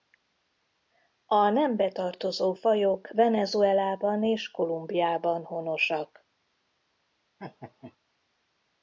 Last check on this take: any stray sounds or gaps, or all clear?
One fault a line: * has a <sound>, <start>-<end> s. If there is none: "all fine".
* has a laugh, 7.4-8.0 s